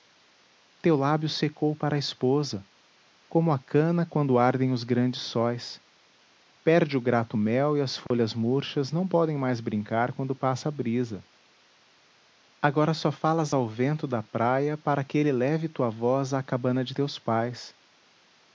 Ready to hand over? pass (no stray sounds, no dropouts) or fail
fail